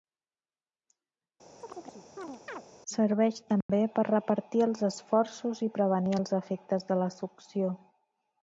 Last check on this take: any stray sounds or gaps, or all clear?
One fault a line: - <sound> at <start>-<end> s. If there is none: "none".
- chirp at 1.6-2.6 s
- dropout at 3.6-3.7 s